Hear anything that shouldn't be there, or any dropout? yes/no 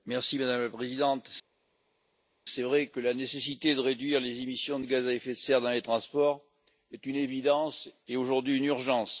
no